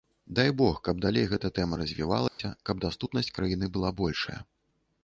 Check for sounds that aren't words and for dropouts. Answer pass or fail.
fail